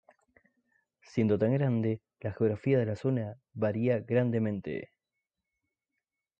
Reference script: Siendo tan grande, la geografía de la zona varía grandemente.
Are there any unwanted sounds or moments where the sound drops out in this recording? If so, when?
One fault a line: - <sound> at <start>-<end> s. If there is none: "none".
none